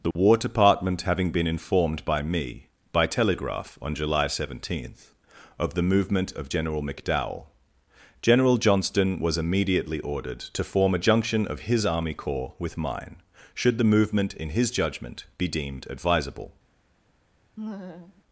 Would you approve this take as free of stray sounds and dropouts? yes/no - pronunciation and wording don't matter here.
no